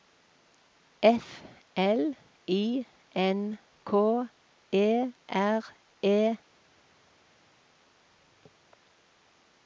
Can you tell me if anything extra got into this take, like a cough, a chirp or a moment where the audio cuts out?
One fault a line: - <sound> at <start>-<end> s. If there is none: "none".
none